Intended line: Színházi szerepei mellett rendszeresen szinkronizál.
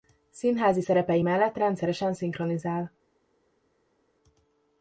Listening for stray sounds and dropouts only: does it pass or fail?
pass